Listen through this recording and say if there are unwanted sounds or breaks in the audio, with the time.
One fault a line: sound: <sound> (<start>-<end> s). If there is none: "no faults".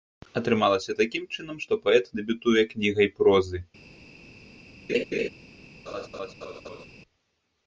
sound: laugh (4.9-5.3 s)
sound: laugh (5.9-6.9 s)